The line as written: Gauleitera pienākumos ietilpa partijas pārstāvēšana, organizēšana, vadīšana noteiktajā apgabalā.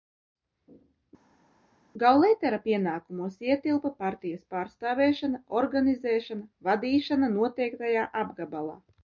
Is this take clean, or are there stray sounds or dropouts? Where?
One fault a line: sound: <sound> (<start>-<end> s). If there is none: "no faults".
no faults